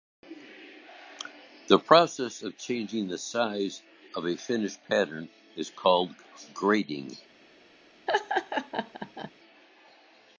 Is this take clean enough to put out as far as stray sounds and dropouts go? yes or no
no